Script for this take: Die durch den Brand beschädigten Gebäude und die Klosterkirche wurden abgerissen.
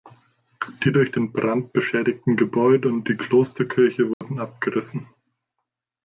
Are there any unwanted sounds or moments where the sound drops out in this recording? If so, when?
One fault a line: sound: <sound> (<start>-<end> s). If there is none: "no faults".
sound: dropout (4.1-4.2 s)